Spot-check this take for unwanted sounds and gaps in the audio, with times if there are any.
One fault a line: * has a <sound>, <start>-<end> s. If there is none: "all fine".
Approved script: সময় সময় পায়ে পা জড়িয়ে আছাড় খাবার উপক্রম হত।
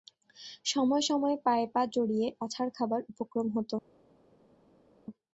all fine